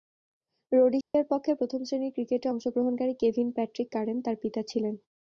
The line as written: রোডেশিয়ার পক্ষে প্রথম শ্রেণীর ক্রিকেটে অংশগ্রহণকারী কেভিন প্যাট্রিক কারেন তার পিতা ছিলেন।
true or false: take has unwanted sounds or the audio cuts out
true